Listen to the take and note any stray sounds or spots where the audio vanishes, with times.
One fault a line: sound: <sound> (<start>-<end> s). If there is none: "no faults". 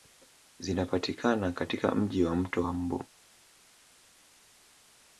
no faults